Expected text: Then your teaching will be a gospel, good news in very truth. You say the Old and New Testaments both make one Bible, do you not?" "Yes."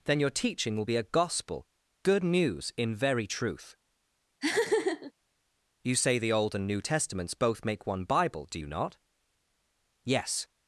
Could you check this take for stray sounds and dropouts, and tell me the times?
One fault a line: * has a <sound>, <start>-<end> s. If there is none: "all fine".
* has a laugh, 4.4-5.1 s